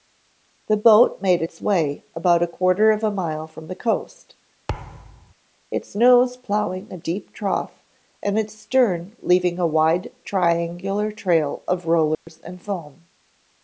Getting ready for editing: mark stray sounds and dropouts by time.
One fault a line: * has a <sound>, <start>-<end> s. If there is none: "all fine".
* has a thud, 4.7-5.3 s
* has a dropout, 12.1-12.3 s